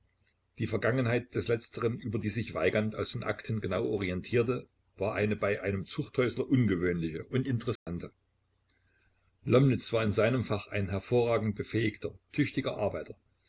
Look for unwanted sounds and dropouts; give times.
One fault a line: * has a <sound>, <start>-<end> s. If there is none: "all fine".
* has a dropout, 7.8-7.9 s